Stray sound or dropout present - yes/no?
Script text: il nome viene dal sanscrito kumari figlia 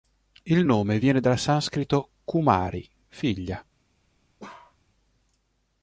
yes